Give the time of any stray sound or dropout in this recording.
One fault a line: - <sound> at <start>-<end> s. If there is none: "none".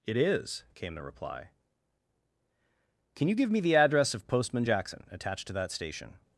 none